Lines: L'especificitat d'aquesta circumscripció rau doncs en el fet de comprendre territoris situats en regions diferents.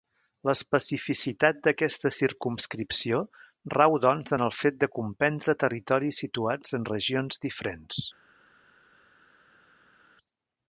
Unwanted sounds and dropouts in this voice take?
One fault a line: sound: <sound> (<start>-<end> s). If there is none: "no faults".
no faults